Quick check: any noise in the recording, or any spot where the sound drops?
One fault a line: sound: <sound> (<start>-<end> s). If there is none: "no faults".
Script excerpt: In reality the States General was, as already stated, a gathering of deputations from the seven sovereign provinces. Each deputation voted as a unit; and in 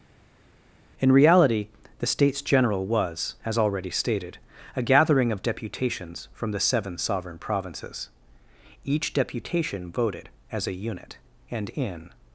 no faults